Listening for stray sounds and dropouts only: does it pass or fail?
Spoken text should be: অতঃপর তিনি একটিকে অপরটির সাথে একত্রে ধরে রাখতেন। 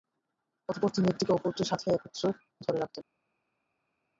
pass